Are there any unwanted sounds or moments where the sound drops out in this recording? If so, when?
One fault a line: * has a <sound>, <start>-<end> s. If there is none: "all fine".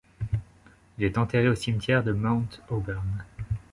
all fine